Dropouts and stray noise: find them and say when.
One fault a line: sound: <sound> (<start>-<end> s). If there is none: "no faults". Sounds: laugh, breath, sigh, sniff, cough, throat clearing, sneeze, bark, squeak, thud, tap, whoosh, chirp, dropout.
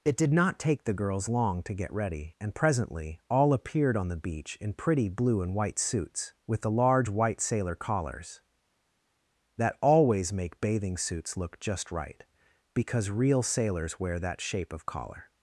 no faults